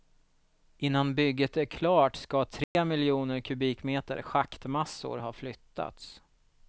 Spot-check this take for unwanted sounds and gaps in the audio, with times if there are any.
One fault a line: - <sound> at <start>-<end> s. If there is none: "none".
- dropout at 2.6-2.8 s